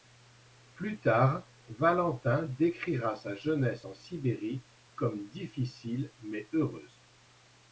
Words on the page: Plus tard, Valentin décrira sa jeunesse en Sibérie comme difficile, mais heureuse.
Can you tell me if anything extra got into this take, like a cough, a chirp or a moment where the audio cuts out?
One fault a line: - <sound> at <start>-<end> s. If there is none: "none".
none